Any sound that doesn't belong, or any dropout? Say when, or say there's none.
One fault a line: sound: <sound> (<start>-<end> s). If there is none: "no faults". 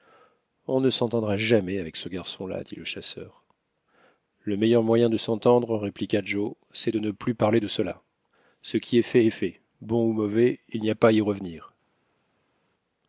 no faults